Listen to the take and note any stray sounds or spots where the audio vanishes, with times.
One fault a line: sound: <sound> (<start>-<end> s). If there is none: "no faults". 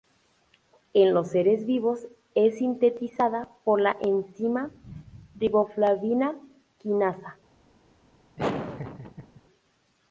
sound: laugh (8.4-9.4 s)